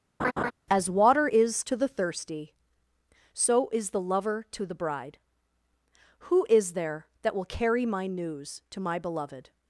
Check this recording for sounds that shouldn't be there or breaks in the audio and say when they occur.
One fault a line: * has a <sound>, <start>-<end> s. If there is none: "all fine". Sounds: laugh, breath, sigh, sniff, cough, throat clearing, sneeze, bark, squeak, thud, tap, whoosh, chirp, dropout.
* has a laugh, 0.2-0.5 s